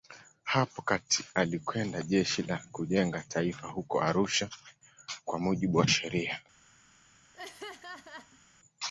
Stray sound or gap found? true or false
true